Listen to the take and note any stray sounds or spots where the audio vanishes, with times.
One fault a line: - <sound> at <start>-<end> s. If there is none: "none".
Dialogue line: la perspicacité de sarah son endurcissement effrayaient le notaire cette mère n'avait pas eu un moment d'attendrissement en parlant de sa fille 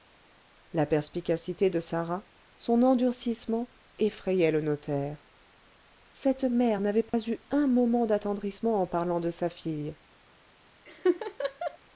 - dropout at 7.1-7.1 s
- laugh at 10.9-11.8 s